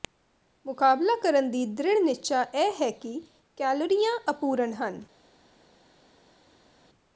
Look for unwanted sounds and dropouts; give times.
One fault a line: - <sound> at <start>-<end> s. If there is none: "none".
none